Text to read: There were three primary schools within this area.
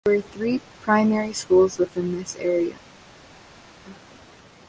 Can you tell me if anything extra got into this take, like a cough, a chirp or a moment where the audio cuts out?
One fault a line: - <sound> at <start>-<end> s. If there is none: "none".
none